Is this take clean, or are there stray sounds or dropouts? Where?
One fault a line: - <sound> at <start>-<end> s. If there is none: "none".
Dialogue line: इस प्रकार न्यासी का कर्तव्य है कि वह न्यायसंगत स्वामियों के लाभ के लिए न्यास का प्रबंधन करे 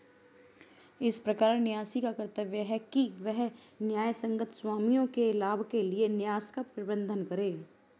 none